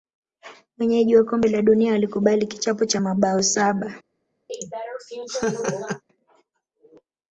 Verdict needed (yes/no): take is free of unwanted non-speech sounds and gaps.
no